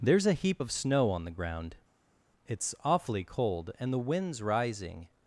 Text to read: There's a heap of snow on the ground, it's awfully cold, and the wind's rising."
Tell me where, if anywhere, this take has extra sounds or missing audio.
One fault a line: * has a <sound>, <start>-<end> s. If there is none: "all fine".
all fine